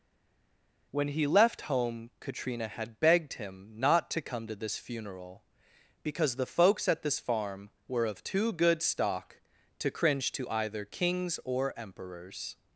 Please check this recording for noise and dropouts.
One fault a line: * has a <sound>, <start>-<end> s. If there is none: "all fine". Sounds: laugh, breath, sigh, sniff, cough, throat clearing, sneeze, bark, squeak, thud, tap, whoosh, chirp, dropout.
all fine